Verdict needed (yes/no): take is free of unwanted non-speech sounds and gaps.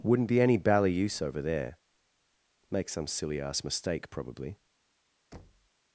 no